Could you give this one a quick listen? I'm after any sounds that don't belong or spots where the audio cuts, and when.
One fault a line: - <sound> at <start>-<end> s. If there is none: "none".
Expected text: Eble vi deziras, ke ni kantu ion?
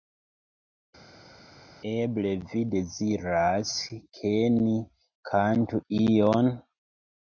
none